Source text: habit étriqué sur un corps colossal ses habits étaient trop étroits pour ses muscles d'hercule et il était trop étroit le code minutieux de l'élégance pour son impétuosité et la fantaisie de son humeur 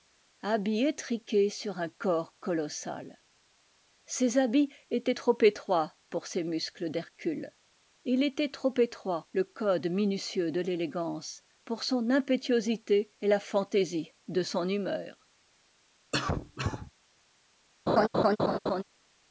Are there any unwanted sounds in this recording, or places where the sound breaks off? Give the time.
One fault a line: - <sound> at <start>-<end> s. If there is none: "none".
- cough at 16.1-16.9 s
- laugh at 17.9-18.8 s